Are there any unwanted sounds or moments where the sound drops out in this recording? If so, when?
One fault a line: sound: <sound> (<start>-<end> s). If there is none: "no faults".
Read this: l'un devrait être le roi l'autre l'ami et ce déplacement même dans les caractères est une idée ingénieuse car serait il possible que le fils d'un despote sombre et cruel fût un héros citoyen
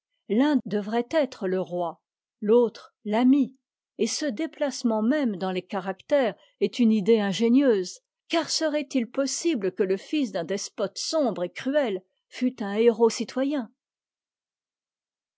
no faults